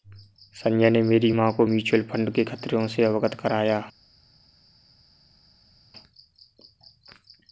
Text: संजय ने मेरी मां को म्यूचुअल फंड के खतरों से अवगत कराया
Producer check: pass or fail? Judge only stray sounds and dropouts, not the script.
pass